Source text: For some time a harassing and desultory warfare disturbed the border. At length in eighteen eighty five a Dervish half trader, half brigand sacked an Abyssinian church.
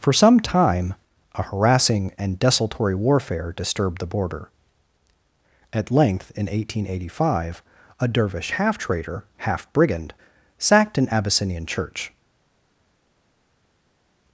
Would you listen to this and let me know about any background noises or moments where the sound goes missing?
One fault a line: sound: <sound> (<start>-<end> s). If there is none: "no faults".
no faults